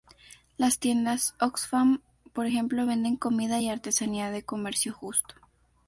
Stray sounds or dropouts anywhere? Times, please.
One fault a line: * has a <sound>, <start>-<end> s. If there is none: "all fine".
all fine